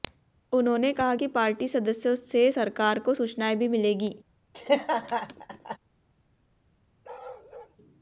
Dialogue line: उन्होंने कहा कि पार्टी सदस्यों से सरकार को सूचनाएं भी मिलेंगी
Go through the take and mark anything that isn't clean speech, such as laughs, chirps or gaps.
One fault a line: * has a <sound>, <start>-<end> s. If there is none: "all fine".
* has a laugh, 4.5-5.8 s
* has a bark, 7.0-7.8 s